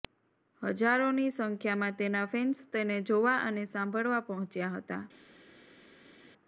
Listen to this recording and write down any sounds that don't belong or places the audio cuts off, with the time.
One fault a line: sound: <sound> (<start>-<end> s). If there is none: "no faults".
no faults